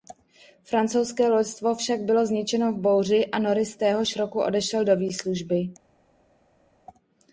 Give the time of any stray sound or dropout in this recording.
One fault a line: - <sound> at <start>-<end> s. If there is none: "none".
none